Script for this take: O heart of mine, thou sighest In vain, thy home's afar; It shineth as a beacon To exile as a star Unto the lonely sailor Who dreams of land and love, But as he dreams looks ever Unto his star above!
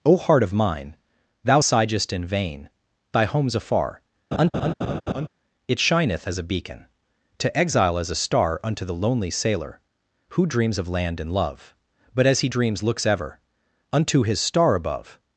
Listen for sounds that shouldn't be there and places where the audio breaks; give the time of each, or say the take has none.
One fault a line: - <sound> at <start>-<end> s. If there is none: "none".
- laugh at 4.3-5.3 s